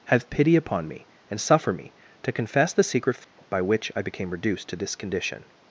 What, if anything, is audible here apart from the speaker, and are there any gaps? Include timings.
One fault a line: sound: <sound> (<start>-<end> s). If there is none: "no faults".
sound: dropout (3.2-3.4 s)